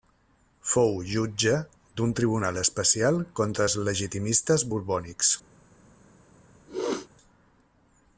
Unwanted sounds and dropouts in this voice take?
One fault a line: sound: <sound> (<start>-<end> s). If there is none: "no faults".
sound: sneeze (6.7-7.1 s)